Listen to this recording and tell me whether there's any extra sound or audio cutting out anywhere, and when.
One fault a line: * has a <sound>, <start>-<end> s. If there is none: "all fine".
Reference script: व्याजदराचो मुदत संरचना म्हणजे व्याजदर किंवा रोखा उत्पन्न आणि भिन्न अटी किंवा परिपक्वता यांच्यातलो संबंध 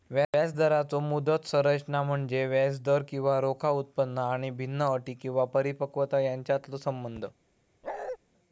* has a bark, 7.8-8.2 s